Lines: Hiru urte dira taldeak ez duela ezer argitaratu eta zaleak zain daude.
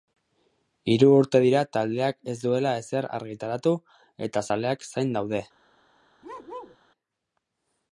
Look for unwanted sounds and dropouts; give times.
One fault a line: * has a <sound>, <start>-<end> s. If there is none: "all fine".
* has a bark, 6.2-6.8 s